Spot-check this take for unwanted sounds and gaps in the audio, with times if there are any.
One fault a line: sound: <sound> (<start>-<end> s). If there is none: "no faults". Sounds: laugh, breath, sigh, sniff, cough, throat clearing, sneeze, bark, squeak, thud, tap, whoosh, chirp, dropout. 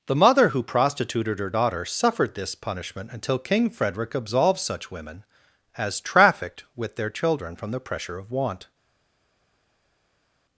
no faults